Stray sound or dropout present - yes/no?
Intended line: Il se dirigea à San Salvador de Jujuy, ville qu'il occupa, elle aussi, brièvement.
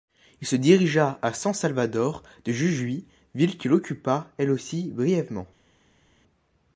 no